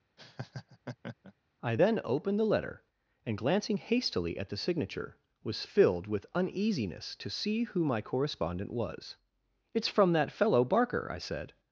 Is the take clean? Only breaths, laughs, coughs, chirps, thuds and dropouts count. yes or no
no